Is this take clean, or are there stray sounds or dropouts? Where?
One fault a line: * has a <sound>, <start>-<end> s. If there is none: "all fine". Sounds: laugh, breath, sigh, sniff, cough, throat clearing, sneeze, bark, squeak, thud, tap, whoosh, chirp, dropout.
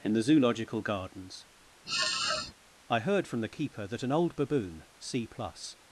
* has a sniff, 1.8-2.5 s